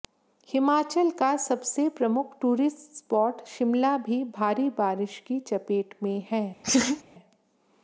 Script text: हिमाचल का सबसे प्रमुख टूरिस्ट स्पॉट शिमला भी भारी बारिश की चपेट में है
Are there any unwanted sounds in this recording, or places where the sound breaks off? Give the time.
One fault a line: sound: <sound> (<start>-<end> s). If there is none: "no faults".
sound: laugh (6.6-7.0 s)